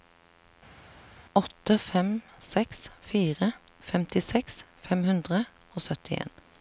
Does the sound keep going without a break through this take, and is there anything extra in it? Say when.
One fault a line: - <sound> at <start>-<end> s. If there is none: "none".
none